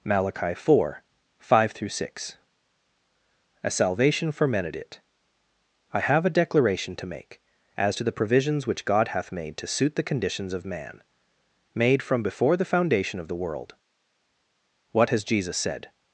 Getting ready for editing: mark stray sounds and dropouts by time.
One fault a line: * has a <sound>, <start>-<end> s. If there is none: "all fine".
all fine